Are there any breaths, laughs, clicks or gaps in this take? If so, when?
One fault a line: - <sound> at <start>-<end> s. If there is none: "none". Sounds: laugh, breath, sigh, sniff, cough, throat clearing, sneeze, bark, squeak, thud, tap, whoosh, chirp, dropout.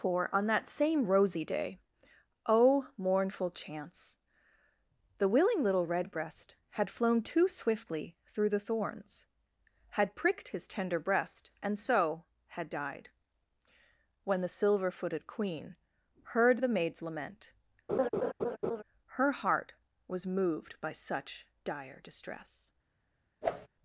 - laugh at 17.9-18.8 s
- whoosh at 23.4-23.7 s